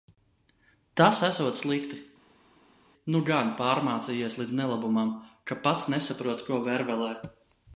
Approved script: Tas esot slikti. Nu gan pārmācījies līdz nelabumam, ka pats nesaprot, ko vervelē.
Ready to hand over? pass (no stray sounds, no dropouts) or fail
pass